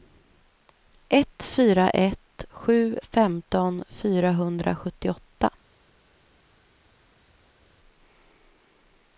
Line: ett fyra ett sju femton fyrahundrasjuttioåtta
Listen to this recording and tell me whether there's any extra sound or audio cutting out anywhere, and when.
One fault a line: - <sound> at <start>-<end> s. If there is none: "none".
none